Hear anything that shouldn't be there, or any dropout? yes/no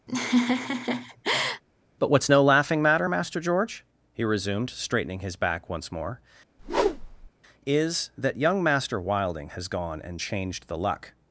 yes